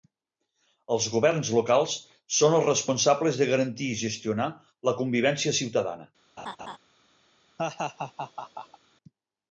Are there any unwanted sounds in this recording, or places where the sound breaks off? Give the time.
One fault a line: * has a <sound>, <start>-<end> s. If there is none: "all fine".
* has a laugh, 6.4-6.8 s
* has a laugh, 7.6-8.8 s